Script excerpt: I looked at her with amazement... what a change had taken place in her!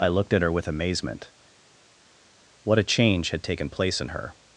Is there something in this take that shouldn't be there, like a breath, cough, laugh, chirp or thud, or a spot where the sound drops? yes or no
no